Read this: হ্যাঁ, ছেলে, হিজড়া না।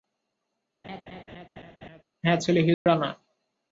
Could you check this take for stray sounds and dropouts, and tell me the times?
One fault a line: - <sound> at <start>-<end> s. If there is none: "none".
- laugh at 0.8-2.0 s
- dropout at 2.7-2.9 s